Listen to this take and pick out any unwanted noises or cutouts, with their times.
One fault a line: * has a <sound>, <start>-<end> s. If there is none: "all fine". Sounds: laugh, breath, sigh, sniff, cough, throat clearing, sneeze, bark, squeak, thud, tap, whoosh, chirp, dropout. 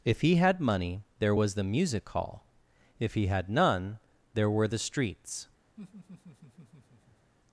* has a laugh, 5.8-7.3 s